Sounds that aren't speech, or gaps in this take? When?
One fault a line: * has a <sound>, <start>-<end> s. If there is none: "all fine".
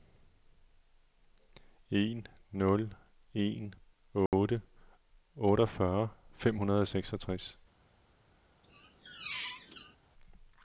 * has a dropout, 4.3-4.3 s
* has a squeak, 8.6-10.0 s